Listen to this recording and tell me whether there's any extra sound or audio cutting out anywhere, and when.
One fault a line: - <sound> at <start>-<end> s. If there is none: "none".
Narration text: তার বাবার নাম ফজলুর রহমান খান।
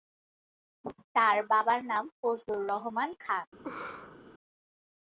- laugh at 3.6-4.2 s